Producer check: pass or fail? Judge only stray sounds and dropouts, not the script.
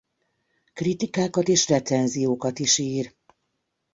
pass